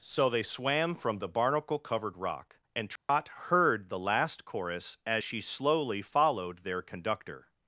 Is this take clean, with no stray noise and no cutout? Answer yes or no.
no